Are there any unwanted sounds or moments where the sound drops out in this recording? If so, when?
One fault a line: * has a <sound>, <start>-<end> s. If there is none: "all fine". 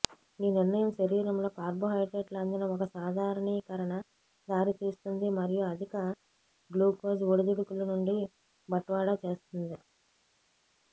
all fine